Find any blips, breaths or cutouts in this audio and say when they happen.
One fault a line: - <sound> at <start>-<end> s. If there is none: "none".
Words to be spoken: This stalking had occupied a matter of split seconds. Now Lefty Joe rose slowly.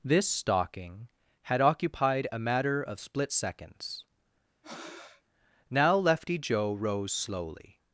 - breath at 4.6-5.2 s